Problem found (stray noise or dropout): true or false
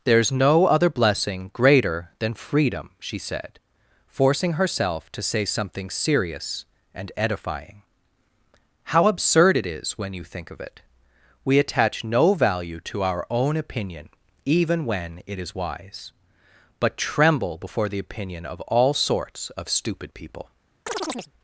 true